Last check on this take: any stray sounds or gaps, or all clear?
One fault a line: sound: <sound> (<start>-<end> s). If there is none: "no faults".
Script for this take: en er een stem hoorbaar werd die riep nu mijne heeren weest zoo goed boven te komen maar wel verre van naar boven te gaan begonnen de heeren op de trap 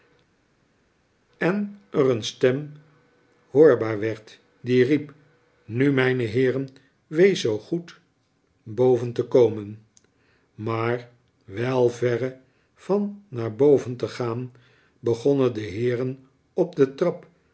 no faults